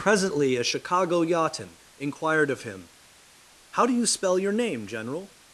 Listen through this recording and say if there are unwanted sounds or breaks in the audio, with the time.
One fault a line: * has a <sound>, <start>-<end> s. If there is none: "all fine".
all fine